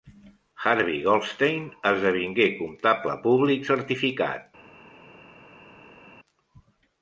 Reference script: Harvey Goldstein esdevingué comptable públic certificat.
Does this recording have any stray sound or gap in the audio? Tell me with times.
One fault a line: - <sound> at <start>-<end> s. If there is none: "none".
none